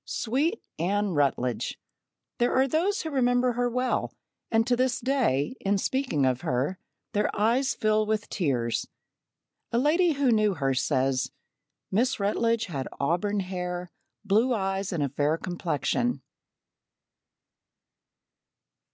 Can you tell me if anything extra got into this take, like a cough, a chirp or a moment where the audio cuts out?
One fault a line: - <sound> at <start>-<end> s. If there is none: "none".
none